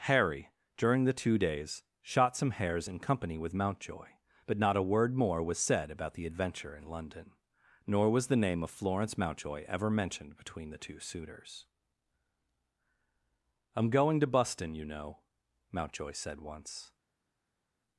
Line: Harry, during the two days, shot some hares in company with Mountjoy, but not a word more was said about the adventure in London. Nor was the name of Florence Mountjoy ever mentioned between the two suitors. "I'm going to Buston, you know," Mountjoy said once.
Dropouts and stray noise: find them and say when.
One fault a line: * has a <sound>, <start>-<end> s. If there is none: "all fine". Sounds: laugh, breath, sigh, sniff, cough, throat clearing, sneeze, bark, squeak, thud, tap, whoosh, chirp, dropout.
all fine